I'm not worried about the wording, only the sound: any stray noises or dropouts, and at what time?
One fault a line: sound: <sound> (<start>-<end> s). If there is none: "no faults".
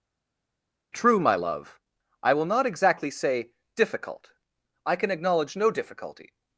no faults